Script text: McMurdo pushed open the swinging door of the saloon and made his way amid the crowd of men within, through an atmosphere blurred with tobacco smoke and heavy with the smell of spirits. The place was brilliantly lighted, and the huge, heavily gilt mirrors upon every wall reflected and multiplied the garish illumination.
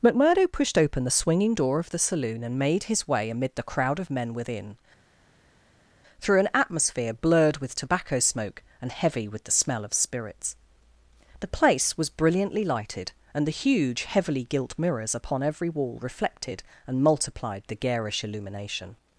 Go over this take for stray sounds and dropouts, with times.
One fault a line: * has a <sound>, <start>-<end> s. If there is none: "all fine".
all fine